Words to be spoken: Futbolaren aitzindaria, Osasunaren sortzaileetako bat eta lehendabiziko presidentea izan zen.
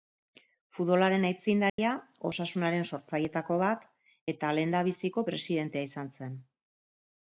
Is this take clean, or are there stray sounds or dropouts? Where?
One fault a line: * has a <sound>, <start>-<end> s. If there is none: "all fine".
* has a dropout, 1.7-1.8 s